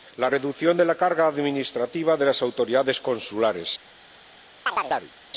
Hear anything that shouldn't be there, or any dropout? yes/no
yes